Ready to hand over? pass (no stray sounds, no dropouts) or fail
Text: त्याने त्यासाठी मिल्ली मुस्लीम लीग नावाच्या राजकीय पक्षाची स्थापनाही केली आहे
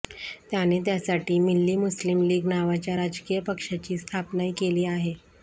pass